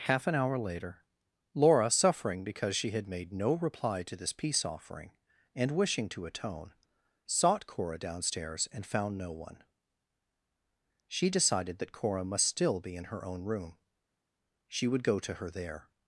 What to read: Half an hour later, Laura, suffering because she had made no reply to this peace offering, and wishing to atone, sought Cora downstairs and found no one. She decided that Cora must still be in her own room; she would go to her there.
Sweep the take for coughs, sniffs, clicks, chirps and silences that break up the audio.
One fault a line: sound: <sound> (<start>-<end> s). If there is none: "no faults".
no faults